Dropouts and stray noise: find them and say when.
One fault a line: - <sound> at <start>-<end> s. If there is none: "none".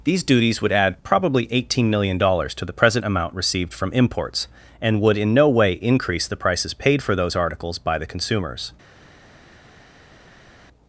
none